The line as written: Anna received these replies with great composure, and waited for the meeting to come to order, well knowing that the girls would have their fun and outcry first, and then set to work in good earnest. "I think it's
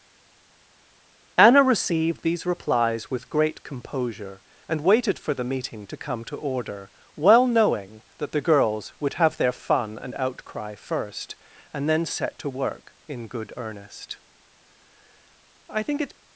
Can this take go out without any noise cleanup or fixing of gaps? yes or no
yes